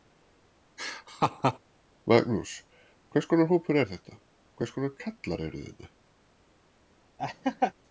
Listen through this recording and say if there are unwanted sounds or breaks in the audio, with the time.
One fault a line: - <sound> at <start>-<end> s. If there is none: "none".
- laugh at 0.8-1.6 s
- laugh at 7.2-7.7 s